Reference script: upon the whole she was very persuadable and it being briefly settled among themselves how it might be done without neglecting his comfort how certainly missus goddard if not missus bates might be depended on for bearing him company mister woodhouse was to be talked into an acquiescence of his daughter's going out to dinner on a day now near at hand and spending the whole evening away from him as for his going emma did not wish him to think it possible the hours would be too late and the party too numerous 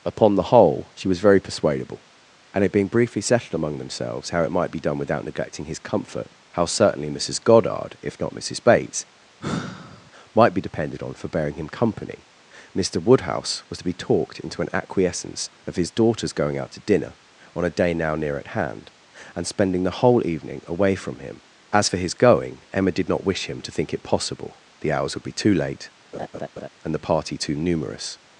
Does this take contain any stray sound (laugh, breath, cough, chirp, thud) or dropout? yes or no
yes